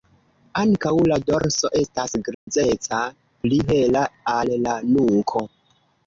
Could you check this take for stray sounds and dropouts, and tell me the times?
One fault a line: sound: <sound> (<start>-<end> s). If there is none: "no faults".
sound: dropout (2.3-2.5 s)